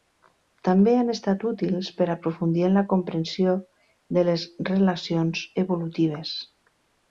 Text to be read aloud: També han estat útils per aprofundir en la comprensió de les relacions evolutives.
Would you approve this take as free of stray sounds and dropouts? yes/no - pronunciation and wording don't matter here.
yes